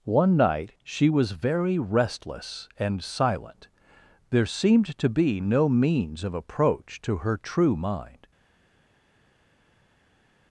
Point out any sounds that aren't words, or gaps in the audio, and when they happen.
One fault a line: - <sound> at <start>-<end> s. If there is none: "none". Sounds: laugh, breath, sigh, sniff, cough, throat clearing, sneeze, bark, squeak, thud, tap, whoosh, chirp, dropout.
none